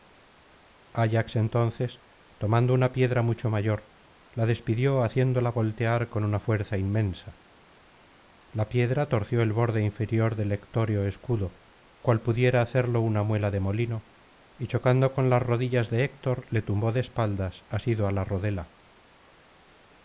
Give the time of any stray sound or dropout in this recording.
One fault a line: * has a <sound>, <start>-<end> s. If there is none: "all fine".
all fine